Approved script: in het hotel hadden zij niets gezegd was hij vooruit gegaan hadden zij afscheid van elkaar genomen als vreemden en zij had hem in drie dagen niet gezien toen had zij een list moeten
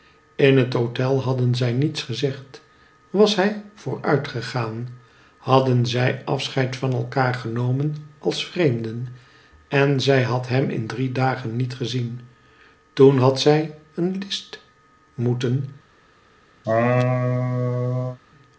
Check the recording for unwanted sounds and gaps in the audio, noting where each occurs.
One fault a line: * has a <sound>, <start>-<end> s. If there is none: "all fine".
* has a laugh, 16.6-18.2 s